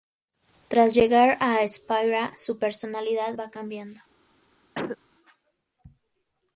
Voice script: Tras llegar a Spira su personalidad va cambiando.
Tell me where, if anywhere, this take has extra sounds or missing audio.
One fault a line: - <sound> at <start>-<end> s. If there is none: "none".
- cough at 4.7-5.0 s